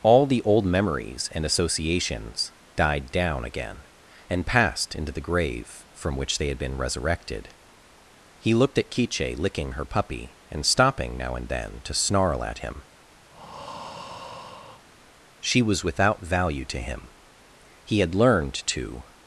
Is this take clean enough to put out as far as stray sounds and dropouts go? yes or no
no